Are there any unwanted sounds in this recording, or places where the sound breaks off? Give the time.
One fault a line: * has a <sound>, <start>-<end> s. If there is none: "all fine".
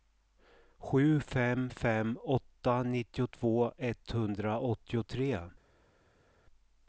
all fine